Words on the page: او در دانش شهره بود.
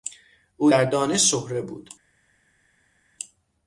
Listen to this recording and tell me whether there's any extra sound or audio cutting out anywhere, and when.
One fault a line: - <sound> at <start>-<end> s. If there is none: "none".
none